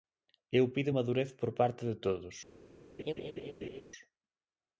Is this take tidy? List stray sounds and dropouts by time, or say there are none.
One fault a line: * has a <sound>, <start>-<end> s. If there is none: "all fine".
* has a laugh, 3.0-3.8 s